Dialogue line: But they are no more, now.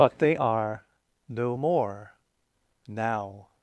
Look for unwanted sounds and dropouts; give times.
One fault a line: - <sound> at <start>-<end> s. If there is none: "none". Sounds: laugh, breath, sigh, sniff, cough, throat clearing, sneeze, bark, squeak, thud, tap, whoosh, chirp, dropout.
none